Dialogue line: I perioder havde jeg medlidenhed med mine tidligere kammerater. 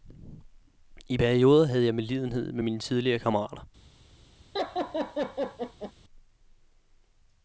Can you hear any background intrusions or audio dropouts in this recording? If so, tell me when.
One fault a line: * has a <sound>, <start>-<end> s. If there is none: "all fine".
* has a laugh, 4.5-5.9 s